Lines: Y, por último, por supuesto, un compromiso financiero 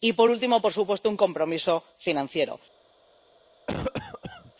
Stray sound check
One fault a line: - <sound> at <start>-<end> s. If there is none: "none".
- cough at 3.7-4.5 s